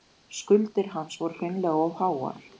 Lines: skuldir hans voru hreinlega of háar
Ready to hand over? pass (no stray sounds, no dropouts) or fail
pass